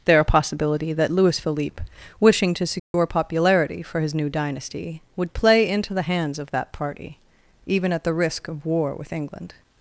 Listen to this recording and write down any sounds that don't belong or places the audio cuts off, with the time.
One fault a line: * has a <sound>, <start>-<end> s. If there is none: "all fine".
* has a dropout, 2.8-2.9 s